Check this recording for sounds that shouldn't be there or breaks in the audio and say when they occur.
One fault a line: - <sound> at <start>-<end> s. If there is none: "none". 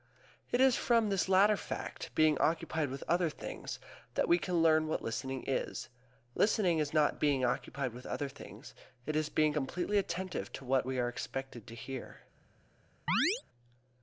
- chirp at 13.1-13.4 s